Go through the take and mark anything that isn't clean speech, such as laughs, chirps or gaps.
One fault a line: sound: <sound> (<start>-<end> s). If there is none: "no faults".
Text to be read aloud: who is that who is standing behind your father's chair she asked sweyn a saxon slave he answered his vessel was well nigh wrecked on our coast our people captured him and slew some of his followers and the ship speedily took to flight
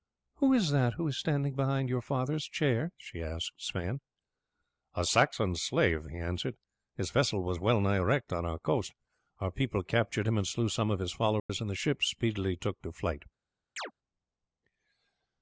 sound: dropout (11.4-11.5 s)
sound: chirp (13.8-13.9 s)